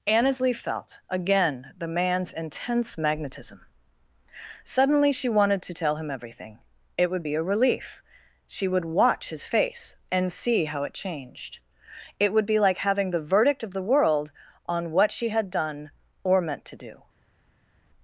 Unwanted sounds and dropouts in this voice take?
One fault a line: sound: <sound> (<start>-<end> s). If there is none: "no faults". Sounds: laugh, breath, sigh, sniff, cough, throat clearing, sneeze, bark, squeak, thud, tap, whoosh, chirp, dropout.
no faults